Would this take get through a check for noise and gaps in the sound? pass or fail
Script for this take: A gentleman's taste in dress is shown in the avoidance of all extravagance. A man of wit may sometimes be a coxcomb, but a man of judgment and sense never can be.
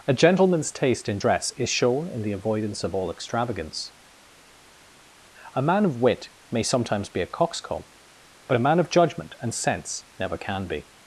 pass